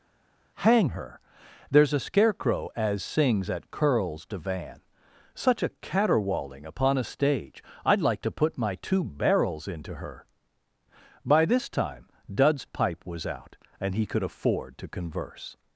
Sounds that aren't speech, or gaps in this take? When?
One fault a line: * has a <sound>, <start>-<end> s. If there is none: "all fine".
all fine